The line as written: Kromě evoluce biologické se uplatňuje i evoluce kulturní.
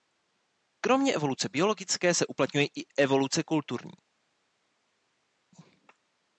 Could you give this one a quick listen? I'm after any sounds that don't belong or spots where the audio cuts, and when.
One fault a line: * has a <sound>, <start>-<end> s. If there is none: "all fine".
all fine